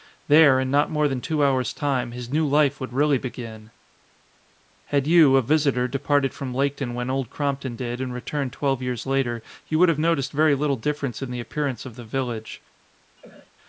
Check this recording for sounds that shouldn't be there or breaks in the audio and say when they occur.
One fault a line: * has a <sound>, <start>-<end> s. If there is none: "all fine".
* has a cough, 13.2-13.5 s